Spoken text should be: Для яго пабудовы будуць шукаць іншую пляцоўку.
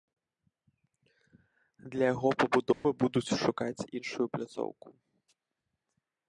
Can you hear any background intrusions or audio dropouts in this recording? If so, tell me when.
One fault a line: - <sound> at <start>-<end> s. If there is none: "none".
- dropout at 2.7-2.8 s